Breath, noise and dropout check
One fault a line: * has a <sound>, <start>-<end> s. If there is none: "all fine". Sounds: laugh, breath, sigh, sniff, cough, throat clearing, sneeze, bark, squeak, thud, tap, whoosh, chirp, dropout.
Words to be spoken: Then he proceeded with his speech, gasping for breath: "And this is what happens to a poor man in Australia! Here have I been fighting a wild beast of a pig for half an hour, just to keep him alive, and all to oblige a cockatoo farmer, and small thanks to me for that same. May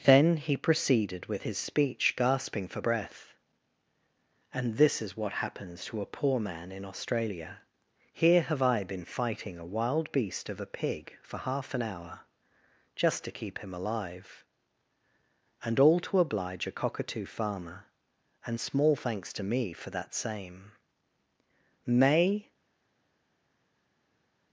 all fine